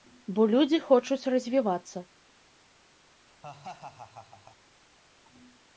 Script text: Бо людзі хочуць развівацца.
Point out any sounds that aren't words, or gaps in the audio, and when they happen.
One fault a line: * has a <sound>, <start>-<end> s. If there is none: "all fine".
* has a laugh, 3.3-4.6 s